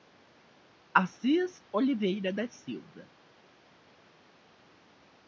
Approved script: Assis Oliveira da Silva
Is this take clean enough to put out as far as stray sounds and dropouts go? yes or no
yes